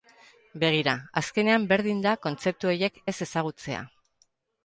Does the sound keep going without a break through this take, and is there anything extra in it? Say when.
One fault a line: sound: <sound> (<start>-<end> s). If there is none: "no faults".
no faults